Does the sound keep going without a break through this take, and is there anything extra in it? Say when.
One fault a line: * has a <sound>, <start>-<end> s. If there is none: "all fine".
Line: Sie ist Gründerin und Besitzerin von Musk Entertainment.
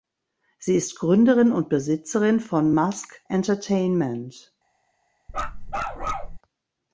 * has a bark, 5.3-6.4 s